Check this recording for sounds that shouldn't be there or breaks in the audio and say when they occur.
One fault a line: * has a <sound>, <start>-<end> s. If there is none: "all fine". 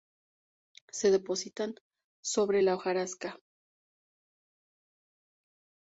all fine